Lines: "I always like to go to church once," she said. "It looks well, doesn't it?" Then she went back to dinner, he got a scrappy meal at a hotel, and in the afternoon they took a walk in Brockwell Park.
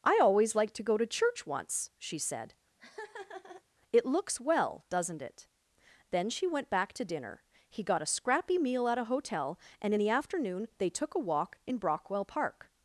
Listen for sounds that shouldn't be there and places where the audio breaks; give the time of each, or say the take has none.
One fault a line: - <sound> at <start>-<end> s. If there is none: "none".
- laugh at 2.8-3.6 s